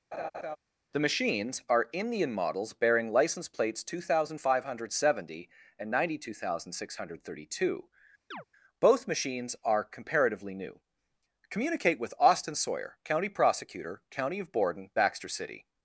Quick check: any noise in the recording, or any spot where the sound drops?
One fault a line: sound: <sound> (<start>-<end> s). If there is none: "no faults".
sound: laugh (0.1-0.6 s)
sound: chirp (8.3-8.4 s)